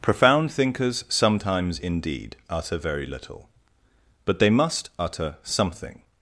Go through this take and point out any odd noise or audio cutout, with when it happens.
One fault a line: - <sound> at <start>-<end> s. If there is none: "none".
none